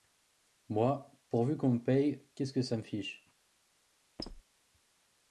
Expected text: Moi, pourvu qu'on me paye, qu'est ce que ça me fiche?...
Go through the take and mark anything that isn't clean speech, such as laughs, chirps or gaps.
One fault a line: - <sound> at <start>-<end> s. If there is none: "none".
- squeak at 4.2-4.4 s